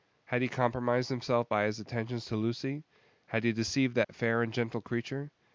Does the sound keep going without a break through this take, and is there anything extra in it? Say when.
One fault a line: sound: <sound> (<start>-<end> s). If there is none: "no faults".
sound: dropout (4.0-4.1 s)